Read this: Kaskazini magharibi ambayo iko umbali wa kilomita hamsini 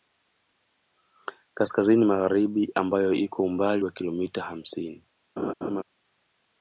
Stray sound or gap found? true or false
true